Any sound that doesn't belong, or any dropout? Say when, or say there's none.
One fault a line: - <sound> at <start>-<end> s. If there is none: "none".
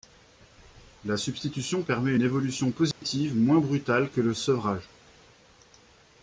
- dropout at 2.9-3.0 s